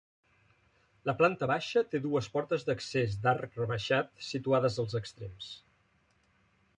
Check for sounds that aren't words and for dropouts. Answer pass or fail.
pass